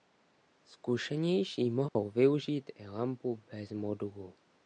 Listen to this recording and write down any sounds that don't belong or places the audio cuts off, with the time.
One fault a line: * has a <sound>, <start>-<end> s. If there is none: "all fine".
* has a dropout, 1.9-2.0 s